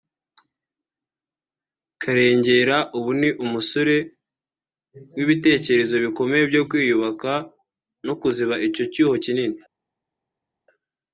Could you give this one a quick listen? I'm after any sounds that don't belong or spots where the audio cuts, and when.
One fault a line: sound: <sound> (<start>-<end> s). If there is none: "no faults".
no faults